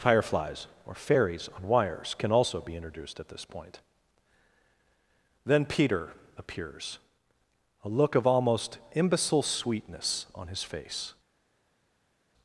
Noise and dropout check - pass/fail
pass